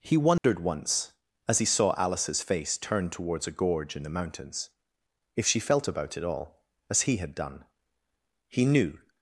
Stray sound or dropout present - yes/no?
yes